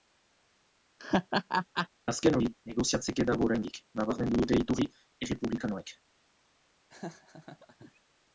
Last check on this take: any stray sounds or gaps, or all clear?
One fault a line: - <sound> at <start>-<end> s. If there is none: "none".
- laugh at 1.0-1.9 s
- laugh at 6.9-8.0 s